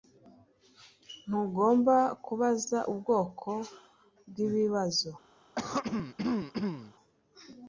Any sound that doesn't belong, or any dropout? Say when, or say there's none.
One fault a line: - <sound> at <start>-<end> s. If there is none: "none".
- throat clearing at 5.6-6.9 s